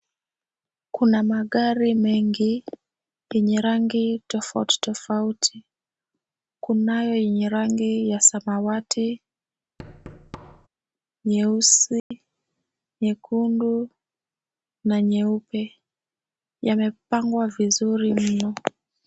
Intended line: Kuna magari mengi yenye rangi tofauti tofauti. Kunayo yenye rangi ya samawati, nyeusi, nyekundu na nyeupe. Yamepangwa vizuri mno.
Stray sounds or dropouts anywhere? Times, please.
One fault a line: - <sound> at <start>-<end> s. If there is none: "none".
- thud at 9.8-10.7 s
- dropout at 12.0-12.1 s